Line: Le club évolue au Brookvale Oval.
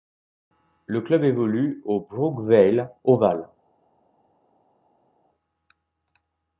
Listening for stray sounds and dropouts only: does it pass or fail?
pass